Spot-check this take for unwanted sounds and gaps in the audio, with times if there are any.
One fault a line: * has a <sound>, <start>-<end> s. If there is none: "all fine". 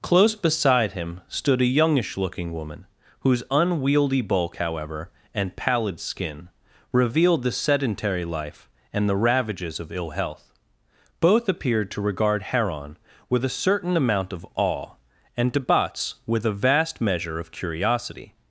all fine